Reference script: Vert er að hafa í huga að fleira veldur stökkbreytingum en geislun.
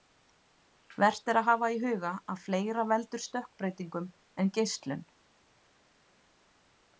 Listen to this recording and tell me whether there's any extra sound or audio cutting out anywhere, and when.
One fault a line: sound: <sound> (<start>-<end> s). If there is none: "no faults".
no faults